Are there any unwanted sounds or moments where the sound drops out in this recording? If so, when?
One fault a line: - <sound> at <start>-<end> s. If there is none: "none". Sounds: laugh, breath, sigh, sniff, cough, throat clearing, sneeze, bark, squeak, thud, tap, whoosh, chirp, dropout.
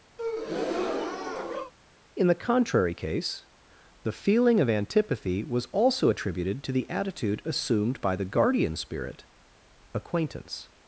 - breath at 0.2-1.7 s